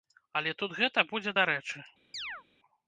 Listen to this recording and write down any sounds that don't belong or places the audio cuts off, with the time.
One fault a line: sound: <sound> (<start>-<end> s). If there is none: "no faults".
sound: chirp (2.1-2.4 s)